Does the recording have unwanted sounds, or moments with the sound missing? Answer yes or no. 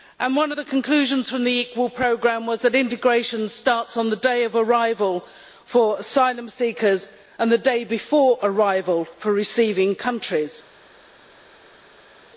no